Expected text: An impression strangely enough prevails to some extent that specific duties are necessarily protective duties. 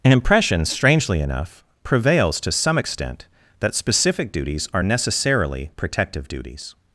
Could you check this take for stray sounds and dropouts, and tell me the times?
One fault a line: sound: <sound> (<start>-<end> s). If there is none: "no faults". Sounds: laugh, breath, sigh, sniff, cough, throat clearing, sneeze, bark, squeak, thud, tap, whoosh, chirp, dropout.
no faults